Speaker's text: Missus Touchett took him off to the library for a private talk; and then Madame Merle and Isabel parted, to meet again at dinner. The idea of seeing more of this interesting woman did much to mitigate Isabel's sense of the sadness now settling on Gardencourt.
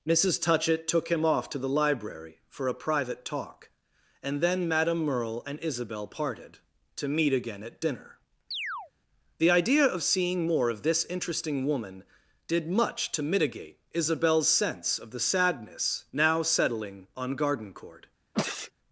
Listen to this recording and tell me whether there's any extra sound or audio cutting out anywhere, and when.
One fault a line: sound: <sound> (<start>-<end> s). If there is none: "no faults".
sound: chirp (8.5-8.9 s)
sound: sneeze (18.3-18.7 s)